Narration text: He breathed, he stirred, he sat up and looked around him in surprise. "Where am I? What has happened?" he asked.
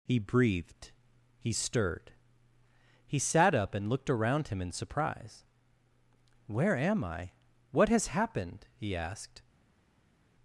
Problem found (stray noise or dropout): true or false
false